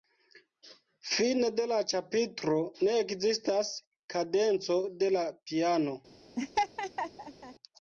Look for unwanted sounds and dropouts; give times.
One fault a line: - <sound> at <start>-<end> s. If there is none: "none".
- laugh at 6.4-7.5 s